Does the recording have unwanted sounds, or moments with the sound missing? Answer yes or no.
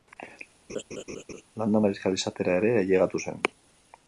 yes